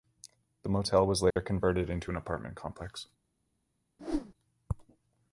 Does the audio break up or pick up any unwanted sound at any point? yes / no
yes